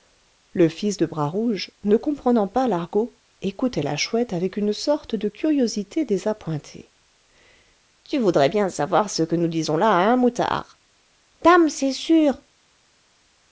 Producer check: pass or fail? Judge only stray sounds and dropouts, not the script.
pass